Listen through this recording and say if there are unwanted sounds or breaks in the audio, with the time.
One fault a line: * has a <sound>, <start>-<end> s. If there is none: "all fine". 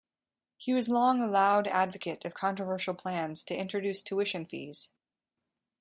all fine